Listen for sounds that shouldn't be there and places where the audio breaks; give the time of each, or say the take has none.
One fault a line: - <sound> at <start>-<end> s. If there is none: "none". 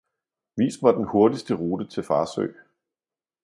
none